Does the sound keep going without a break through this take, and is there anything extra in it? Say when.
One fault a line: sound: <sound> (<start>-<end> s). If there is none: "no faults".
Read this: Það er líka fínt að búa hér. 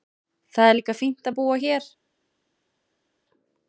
no faults